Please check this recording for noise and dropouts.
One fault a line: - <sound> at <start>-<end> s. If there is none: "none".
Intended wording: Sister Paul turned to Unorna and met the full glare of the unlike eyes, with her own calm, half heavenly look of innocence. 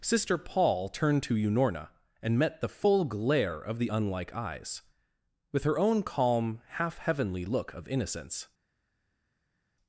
none